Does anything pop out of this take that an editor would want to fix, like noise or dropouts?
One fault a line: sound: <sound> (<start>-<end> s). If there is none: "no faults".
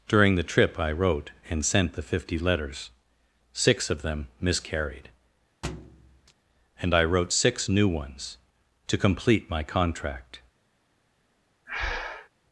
sound: thud (5.6-6.3 s)
sound: breath (11.7-12.3 s)